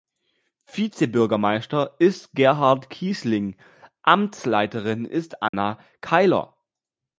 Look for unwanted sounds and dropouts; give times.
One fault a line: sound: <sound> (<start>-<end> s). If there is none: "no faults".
sound: dropout (5.5-5.5 s)